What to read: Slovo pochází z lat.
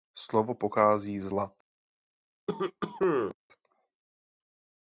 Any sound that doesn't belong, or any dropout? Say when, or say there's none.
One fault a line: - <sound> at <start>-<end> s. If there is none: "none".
- cough at 2.5-3.4 s